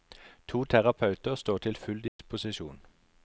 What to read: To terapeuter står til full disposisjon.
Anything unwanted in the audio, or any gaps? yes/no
yes